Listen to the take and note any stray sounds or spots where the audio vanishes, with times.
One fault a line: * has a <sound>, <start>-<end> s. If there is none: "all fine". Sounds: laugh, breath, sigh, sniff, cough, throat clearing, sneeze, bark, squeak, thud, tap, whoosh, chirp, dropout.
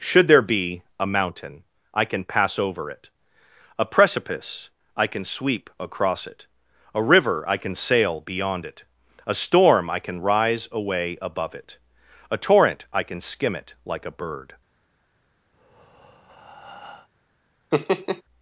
* has a breath, 15.5-17.1 s
* has a laugh, 17.7-18.2 s